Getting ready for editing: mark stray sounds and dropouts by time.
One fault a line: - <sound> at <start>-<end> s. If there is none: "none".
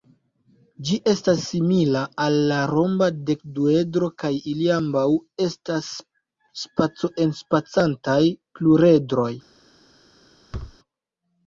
- thud at 10.5-10.8 s